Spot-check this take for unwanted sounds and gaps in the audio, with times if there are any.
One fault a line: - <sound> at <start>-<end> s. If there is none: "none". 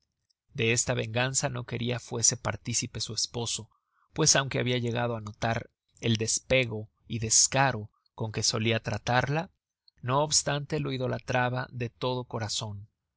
none